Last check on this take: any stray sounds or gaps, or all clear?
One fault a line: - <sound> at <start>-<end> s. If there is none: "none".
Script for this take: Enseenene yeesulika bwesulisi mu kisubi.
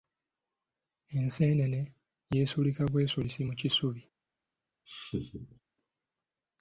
- laugh at 4.9-5.6 s